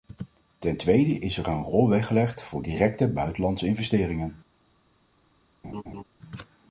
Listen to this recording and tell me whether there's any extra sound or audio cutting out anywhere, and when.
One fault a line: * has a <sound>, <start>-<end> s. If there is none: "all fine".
* has a laugh, 5.6-6.0 s